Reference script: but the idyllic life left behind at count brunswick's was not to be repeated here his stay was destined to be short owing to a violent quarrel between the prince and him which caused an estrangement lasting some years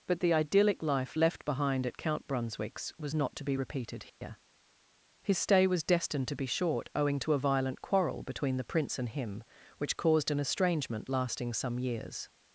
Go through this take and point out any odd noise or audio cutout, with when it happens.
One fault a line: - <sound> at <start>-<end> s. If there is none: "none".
- dropout at 4.1-4.2 s